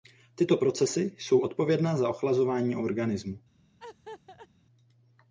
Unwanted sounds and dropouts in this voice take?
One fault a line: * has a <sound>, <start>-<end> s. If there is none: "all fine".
* has a laugh, 3.8-4.5 s